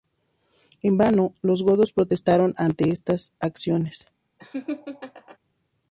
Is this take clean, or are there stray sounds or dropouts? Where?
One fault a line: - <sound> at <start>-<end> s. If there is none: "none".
- laugh at 4.4-5.4 s